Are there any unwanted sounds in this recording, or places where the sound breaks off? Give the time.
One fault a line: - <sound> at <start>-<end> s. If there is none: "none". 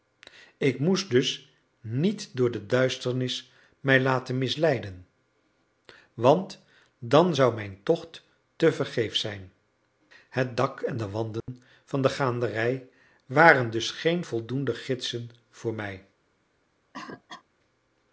- dropout at 11.4-11.5 s
- cough at 16.9-17.4 s